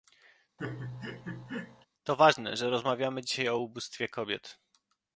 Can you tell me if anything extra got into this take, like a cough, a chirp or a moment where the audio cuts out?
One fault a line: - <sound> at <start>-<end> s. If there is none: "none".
- laugh at 0.6-1.9 s